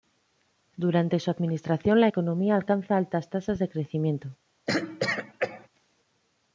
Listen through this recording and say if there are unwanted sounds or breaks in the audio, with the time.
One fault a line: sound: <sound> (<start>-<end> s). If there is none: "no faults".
sound: throat clearing (4.7-5.7 s)